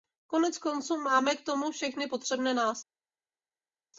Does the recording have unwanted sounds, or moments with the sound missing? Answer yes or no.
no